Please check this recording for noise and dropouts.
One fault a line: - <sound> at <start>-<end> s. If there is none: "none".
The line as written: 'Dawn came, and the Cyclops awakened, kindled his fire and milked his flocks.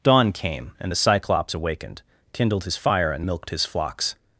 none